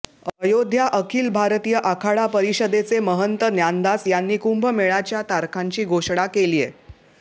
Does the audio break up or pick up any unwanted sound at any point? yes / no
no